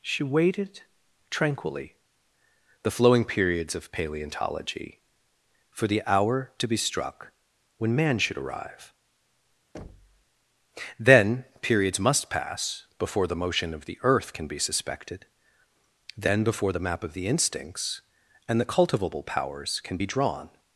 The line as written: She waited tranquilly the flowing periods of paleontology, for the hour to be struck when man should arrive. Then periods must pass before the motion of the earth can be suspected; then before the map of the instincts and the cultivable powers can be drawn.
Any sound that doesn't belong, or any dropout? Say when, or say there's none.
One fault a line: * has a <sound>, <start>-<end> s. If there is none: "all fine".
* has a thud, 9.7-10.2 s